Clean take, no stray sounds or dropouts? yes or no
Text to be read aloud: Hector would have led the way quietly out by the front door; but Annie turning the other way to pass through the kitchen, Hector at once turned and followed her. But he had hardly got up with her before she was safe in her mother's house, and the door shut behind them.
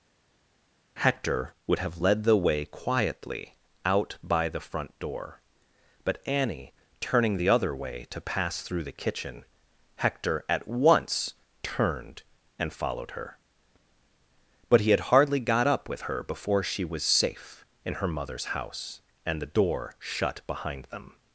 yes